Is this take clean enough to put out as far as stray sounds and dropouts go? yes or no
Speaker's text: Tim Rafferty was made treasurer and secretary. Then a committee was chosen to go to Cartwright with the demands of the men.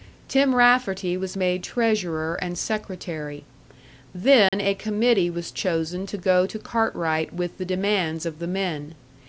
no